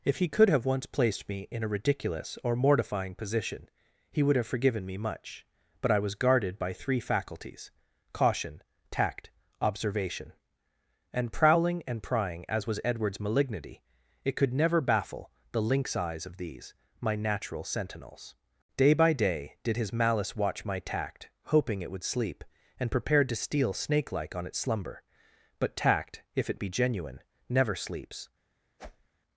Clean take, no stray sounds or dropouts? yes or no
no